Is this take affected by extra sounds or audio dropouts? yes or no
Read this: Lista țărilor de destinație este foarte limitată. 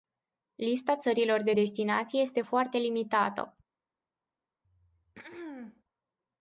yes